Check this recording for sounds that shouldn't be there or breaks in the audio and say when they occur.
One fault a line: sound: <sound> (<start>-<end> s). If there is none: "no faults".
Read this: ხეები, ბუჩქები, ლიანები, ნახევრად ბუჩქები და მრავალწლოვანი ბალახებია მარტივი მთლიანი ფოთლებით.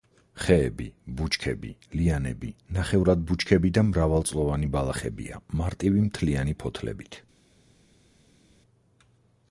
no faults